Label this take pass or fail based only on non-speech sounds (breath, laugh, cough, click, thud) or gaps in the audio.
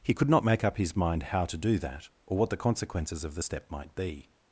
pass